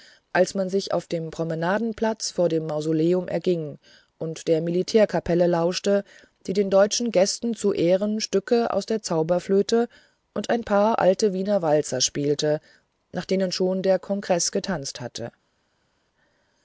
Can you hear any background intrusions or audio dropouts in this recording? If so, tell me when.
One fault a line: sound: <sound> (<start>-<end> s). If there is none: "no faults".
no faults